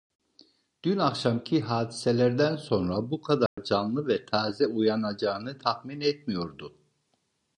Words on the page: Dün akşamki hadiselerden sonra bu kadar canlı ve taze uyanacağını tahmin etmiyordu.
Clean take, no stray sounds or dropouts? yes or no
no